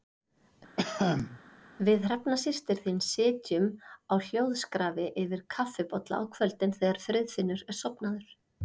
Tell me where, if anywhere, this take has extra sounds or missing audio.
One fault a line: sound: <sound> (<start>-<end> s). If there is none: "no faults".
sound: cough (0.8-1.4 s)